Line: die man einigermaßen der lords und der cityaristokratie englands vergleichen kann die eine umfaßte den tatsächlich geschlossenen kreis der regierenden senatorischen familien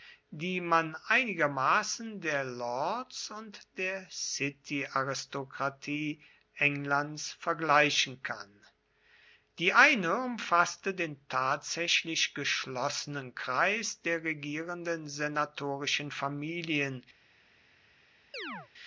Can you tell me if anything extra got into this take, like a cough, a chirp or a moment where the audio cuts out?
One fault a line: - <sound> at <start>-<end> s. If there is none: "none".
- chirp at 18.3-18.7 s